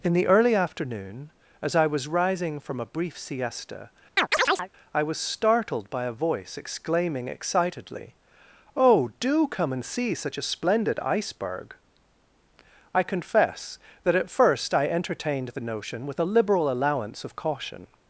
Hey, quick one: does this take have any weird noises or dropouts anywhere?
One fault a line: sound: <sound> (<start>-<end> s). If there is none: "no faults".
sound: chirp (4.2-4.7 s)